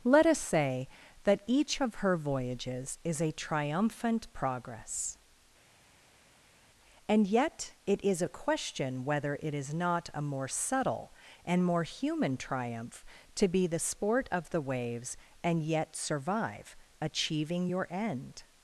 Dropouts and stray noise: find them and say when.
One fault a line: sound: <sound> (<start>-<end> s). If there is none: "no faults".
no faults